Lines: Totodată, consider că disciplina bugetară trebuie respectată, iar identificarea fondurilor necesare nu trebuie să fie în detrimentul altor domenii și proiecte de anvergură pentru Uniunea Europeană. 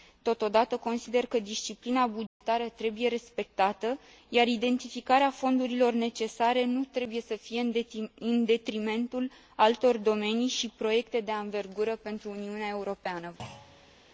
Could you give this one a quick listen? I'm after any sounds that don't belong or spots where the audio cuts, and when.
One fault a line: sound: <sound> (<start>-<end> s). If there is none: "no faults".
sound: dropout (2.3-2.4 s)
sound: thud (13.4-14.0 s)